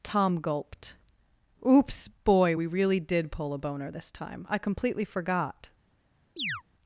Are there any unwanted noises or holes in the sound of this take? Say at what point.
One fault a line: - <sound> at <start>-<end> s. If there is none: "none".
- chirp at 6.4-6.6 s